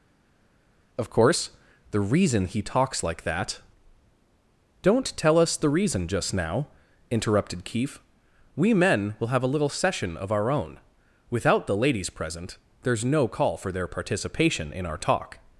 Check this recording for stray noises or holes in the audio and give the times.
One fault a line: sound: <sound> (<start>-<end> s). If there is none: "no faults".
no faults